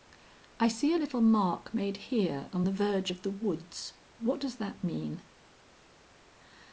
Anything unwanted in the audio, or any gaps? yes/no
no